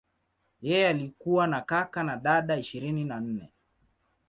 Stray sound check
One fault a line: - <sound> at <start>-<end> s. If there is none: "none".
none